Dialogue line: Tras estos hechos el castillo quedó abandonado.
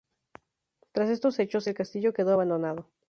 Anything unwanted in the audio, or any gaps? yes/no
no